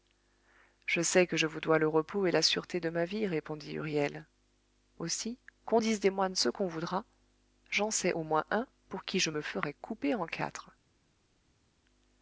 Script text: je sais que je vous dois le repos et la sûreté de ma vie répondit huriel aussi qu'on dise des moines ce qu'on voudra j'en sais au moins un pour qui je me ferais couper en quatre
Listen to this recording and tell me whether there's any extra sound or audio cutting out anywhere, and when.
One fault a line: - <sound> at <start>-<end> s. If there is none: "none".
none